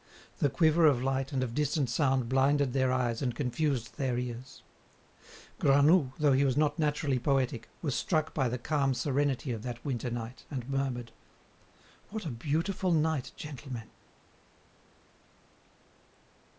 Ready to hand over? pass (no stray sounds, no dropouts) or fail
pass